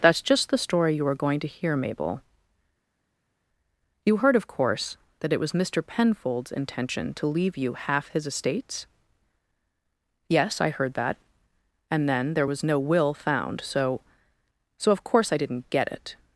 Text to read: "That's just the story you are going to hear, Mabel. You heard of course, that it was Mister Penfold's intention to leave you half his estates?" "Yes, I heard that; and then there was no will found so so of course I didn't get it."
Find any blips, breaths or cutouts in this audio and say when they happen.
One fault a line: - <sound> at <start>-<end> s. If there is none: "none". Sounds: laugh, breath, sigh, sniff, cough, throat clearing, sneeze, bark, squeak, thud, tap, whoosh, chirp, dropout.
none